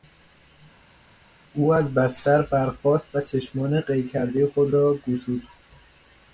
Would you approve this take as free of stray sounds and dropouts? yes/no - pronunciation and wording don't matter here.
yes